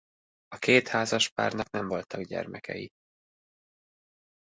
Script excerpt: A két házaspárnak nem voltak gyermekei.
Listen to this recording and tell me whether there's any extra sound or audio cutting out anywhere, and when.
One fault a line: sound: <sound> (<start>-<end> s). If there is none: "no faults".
no faults